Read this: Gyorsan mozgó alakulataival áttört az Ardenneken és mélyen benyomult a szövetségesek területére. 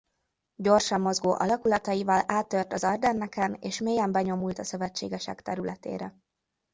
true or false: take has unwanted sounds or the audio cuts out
false